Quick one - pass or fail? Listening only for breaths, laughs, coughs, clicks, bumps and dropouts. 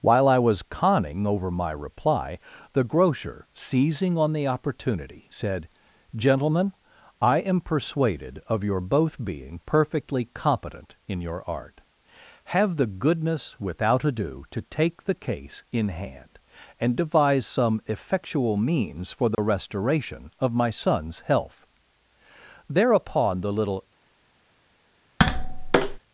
fail